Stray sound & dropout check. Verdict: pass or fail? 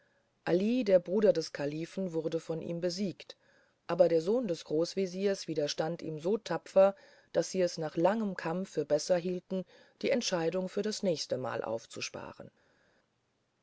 pass